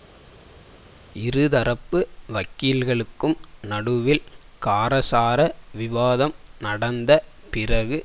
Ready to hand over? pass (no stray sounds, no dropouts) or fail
pass